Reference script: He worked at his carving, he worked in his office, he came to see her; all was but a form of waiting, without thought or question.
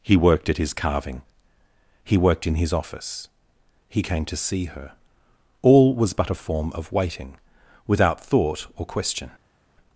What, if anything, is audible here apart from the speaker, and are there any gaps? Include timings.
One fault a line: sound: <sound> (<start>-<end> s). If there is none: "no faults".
no faults